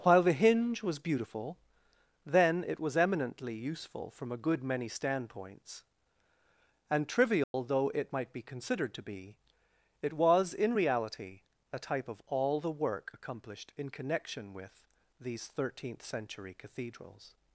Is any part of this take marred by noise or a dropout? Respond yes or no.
yes